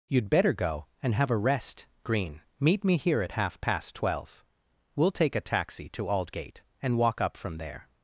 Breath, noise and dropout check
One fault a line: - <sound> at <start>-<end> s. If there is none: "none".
none